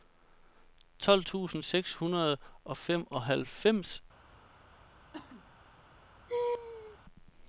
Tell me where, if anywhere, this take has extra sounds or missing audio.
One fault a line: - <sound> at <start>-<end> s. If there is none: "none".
- cough at 5.1-5.5 s
- laugh at 6.3-7.0 s